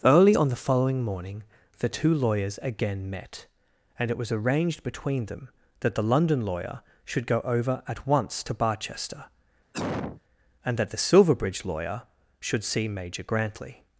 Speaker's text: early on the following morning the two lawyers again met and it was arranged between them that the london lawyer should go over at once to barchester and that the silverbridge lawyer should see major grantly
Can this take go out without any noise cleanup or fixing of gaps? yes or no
no